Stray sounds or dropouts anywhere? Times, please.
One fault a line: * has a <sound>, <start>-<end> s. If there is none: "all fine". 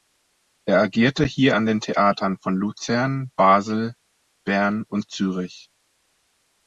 all fine